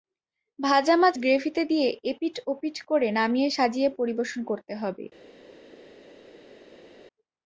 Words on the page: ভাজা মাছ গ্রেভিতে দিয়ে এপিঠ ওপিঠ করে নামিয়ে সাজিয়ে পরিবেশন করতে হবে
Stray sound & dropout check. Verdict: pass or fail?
pass